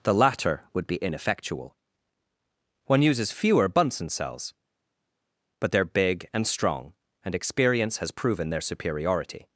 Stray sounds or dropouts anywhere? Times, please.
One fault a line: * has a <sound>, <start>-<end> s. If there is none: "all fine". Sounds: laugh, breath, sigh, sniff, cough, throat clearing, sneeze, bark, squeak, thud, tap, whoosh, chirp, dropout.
all fine